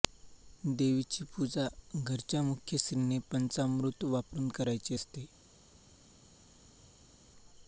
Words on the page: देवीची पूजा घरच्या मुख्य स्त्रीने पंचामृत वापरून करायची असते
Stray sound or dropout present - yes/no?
no